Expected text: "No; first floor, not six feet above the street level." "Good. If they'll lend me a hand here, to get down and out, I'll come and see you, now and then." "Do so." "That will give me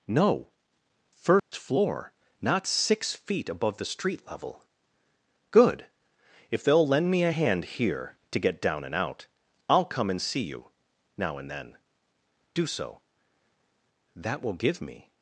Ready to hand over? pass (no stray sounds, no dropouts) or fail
fail